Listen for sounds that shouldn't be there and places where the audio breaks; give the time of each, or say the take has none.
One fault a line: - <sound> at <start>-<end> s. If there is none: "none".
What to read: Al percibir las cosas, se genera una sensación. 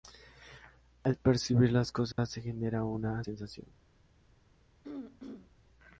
- dropout at 2.1-2.2 s
- throat clearing at 4.8-5.5 s